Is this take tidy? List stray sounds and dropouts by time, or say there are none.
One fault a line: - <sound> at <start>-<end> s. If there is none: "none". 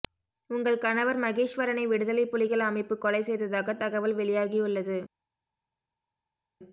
none